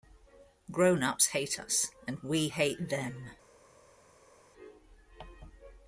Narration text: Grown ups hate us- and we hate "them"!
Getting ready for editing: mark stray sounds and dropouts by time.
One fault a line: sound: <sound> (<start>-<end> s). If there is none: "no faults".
no faults